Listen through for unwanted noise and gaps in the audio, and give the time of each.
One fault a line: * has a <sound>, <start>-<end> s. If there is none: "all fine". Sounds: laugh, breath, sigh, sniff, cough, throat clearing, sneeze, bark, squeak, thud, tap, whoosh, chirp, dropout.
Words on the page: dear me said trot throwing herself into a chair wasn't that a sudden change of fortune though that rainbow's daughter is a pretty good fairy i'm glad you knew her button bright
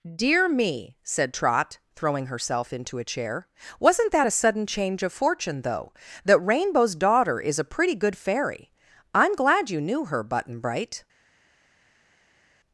all fine